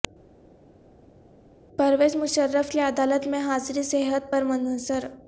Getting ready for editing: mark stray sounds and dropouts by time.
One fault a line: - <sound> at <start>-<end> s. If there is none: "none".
none